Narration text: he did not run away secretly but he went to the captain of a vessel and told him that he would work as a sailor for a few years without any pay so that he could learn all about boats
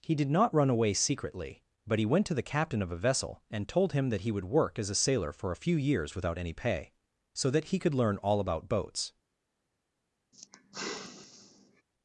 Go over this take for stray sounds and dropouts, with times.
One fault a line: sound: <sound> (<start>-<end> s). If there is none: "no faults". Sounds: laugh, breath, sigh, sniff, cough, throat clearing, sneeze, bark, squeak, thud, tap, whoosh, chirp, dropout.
sound: sigh (10.3-11.8 s)